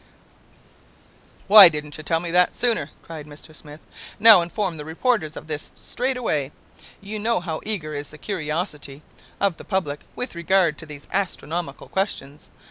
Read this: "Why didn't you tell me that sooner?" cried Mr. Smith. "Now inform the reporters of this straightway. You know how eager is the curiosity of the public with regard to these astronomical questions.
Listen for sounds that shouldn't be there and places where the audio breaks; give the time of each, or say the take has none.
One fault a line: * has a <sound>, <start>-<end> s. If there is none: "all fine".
all fine